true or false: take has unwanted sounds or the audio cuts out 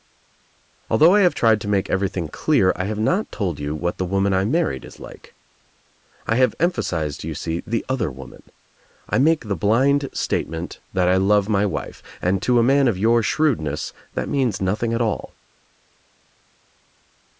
false